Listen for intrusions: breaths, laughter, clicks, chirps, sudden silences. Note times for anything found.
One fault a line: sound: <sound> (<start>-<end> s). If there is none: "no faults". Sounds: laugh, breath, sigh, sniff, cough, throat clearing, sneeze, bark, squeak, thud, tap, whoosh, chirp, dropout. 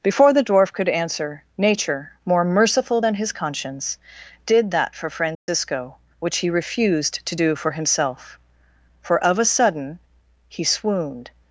sound: dropout (5.3-5.5 s)